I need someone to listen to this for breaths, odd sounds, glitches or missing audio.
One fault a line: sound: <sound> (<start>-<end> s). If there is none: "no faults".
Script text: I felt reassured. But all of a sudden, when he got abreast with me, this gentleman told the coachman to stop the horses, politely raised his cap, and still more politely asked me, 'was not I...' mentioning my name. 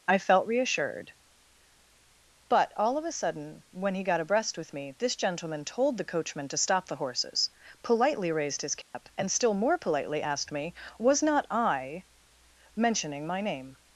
sound: dropout (8.8-8.9 s)